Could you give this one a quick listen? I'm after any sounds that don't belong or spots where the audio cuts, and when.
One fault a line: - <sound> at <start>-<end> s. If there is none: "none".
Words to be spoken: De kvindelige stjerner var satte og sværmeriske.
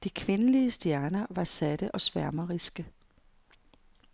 none